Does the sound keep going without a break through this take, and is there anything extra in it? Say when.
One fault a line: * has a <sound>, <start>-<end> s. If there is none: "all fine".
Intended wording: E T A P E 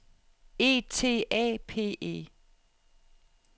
all fine